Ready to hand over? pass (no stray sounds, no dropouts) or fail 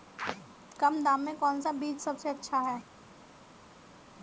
pass